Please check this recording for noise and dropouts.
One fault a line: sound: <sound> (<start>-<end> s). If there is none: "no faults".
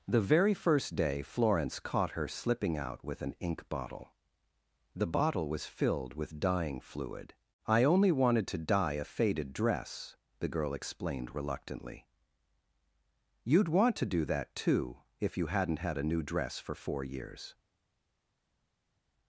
no faults